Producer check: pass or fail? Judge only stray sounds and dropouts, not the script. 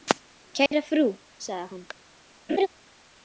fail